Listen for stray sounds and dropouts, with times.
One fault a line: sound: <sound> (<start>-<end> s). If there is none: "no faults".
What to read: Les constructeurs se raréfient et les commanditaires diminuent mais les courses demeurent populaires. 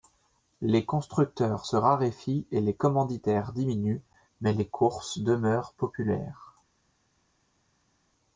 no faults